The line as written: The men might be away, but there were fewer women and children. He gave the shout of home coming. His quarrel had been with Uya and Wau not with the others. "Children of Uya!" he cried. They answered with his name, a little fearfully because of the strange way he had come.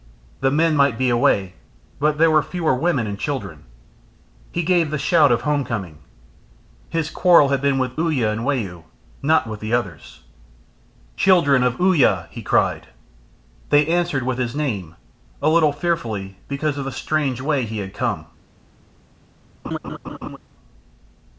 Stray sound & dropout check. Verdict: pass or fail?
fail